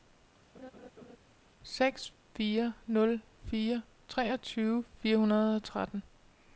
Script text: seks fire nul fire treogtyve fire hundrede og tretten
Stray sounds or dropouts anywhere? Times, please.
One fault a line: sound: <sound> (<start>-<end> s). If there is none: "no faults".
sound: laugh (0.5-1.2 s)